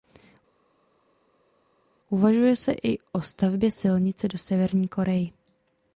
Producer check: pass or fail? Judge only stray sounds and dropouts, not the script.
pass